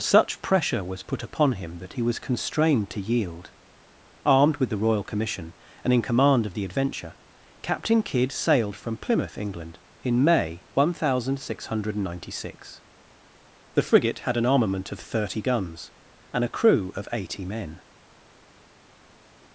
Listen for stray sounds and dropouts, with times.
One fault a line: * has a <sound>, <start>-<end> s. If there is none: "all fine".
all fine